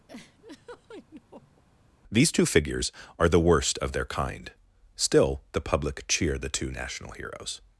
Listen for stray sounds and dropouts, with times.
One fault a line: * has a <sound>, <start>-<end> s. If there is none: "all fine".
* has a laugh, 0.1-1.6 s